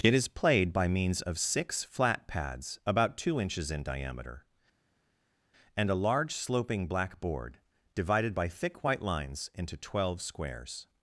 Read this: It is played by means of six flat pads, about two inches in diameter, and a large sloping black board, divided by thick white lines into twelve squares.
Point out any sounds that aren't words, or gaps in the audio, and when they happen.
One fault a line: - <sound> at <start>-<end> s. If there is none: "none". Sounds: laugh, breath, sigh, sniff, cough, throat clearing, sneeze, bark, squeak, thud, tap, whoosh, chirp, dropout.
none